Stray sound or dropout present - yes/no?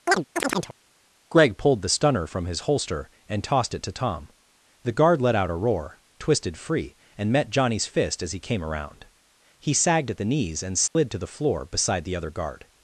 yes